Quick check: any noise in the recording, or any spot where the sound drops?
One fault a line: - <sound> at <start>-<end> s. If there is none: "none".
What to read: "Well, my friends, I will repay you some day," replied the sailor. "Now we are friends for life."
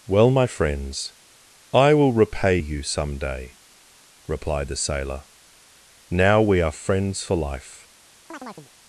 - chirp at 8.3-8.7 s